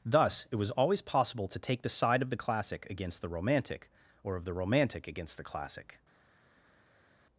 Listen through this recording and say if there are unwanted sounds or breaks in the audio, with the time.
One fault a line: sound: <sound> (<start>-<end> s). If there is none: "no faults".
no faults